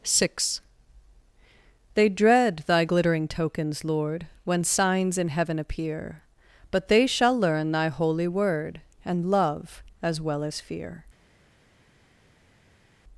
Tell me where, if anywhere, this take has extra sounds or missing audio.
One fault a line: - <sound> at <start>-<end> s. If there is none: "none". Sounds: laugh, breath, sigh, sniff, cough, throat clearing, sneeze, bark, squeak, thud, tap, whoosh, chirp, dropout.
none